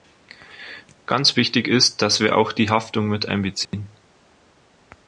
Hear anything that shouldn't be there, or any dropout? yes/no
yes